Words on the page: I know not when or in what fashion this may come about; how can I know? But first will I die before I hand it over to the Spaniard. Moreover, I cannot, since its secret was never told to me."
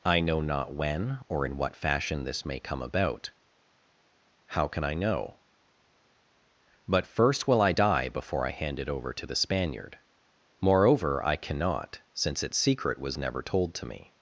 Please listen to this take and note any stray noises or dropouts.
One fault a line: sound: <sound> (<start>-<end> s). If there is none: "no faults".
no faults